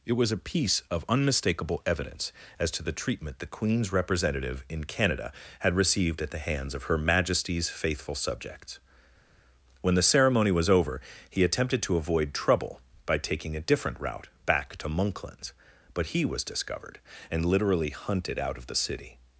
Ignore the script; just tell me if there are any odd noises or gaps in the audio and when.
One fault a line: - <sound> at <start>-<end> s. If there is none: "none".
none